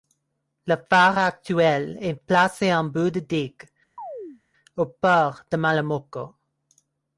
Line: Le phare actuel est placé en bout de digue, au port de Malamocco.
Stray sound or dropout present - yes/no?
yes